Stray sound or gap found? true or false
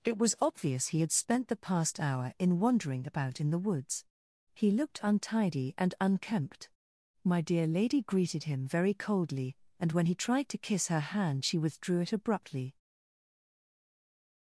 false